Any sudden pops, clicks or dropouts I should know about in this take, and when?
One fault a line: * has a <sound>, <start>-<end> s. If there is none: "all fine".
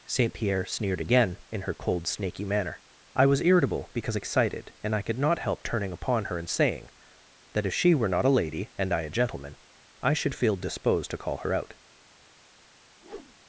* has a whoosh, 13.0-13.4 s